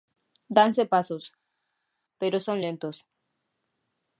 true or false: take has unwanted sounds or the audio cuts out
false